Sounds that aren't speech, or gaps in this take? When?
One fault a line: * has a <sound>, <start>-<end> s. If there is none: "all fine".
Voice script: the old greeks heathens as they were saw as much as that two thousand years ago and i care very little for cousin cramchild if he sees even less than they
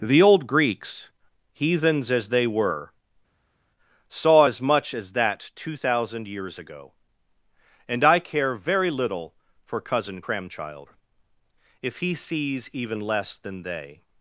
all fine